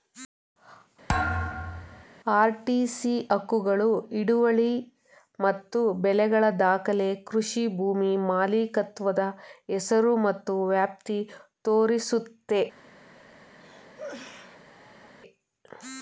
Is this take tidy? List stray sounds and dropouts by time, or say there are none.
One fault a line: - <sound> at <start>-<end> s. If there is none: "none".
- thud at 1.1-2.0 s
- cough at 13.6-15.1 s